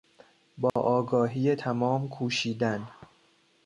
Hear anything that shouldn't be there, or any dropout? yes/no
yes